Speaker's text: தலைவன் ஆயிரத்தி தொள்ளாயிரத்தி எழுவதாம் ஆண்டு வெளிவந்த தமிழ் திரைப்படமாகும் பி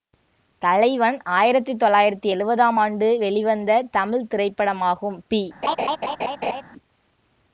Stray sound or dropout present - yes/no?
yes